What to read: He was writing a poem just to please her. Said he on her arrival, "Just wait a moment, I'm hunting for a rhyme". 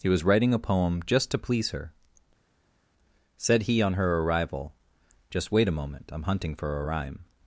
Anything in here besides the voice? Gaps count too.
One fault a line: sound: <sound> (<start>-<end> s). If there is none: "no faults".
no faults